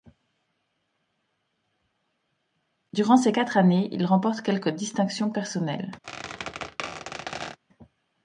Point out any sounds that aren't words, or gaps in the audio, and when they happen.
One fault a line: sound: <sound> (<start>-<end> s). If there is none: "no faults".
sound: squeak (6.0-7.6 s)